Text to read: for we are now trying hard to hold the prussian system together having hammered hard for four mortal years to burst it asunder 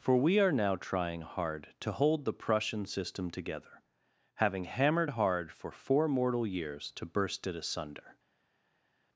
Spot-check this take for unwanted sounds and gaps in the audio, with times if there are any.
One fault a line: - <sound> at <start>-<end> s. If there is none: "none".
none